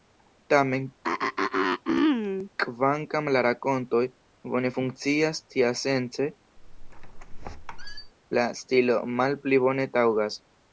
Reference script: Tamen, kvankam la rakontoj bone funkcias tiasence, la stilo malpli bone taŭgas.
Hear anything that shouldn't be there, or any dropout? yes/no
yes